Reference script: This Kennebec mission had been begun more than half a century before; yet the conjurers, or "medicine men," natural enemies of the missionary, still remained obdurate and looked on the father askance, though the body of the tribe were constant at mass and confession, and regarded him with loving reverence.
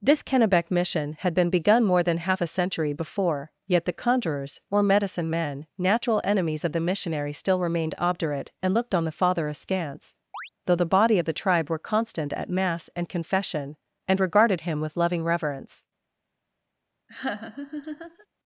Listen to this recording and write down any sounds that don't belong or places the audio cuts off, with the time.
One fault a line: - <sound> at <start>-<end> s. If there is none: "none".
- chirp at 10.3-10.5 s
- laugh at 17.1-18.3 s